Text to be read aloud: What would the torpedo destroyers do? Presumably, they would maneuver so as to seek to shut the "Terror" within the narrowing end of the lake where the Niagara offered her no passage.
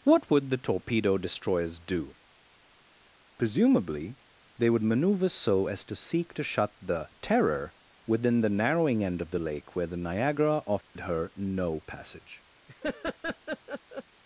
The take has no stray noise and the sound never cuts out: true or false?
false